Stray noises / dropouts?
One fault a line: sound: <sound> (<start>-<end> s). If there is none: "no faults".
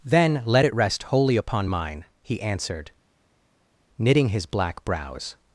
no faults